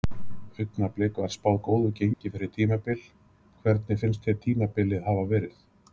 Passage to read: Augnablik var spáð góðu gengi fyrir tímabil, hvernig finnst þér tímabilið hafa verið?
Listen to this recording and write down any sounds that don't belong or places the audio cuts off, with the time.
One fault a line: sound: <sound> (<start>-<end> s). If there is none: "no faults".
sound: dropout (2.1-2.2 s)